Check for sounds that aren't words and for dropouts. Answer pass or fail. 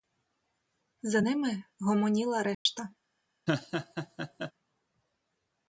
fail